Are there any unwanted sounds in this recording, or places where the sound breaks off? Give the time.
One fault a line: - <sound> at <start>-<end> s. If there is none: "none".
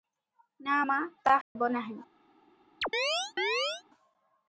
- dropout at 1.4-1.6 s
- chirp at 2.8-3.8 s